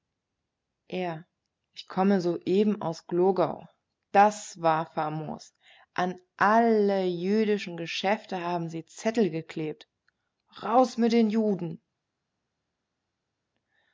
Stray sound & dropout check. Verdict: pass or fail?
pass